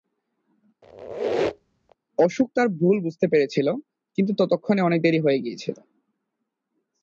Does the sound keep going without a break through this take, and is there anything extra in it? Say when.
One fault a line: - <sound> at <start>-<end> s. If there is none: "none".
- squeak at 0.8-2.0 s